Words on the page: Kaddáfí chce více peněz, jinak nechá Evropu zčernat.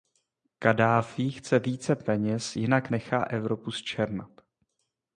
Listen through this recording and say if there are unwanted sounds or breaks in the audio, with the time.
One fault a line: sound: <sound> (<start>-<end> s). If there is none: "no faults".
no faults